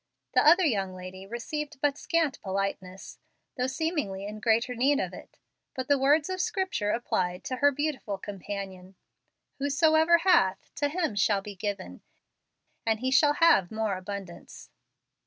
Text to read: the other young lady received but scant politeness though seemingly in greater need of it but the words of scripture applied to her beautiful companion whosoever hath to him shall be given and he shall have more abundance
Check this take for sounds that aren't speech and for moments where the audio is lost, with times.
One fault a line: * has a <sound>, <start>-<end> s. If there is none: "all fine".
all fine